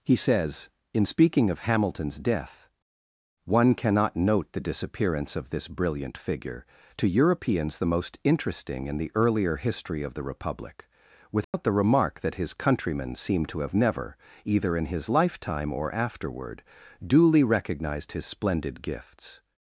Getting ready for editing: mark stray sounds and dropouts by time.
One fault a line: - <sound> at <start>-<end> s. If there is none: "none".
- dropout at 11.4-11.5 s